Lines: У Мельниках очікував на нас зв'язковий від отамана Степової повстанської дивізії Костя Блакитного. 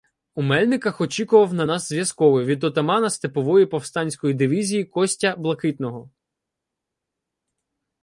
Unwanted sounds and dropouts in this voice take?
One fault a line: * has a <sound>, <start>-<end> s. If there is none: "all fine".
all fine